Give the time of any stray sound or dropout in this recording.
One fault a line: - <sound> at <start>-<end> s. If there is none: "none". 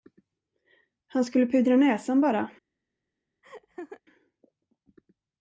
- laugh at 3.4-4.0 s